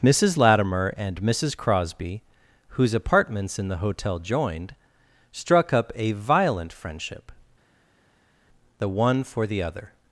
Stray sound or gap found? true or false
false